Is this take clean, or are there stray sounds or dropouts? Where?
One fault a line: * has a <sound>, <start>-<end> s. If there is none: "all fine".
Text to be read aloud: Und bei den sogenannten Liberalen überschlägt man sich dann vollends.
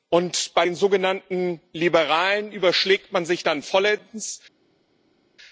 all fine